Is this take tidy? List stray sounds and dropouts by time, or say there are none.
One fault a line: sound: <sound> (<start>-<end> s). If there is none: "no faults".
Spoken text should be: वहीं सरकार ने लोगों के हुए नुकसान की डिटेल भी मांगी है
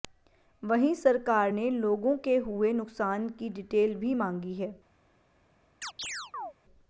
sound: chirp (5.8-6.5 s)